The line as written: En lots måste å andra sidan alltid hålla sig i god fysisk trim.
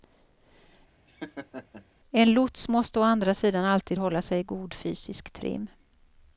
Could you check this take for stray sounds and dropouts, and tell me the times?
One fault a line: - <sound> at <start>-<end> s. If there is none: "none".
- laugh at 1.1-1.9 s